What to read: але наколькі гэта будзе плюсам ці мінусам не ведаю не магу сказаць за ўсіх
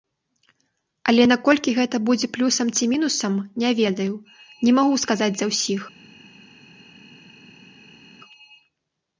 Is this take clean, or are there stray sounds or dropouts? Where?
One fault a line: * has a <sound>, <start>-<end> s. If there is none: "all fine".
all fine